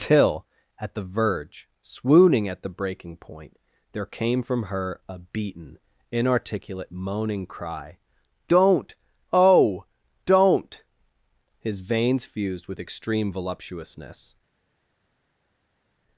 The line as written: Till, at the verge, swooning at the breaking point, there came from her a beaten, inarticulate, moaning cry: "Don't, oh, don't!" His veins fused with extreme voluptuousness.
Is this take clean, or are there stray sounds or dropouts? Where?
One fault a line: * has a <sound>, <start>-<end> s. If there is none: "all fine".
all fine